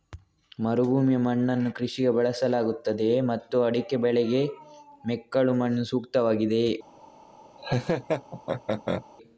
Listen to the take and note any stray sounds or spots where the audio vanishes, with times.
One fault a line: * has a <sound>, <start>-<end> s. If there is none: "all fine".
* has a laugh, 7.6-9.1 s